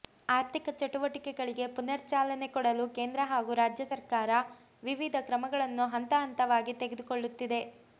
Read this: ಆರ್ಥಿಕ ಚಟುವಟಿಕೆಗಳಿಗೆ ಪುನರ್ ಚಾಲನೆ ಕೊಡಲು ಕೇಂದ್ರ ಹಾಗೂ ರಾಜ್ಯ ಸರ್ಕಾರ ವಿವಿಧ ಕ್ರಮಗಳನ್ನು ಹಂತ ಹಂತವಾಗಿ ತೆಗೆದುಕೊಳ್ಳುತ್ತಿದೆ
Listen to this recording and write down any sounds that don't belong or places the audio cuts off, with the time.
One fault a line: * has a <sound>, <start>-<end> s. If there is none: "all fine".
all fine